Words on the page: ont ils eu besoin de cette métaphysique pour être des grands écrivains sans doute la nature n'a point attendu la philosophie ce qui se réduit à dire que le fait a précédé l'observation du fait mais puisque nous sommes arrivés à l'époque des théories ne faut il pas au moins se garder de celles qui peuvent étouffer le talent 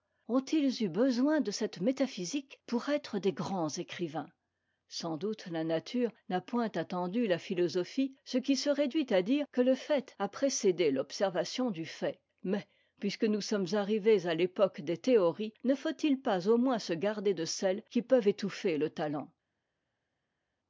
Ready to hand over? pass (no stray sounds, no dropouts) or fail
pass